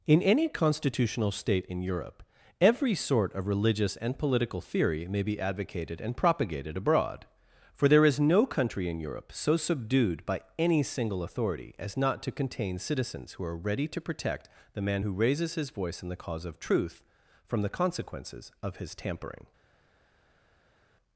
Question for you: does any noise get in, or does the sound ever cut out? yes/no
no